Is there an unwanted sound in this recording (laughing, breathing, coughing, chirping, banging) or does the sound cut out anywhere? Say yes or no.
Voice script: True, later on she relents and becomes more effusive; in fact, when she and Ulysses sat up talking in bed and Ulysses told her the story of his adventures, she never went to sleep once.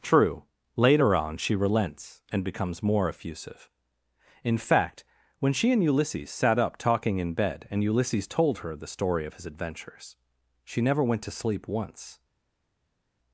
no